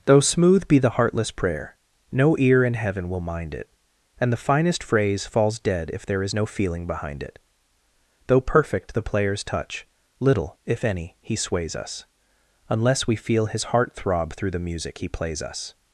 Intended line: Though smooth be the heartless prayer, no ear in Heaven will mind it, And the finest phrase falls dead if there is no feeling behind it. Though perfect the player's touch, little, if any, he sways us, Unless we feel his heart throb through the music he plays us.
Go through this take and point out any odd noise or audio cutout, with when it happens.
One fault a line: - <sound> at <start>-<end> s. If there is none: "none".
none